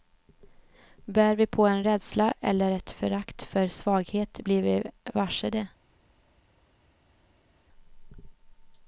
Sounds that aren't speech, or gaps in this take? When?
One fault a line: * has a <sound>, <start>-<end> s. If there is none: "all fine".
all fine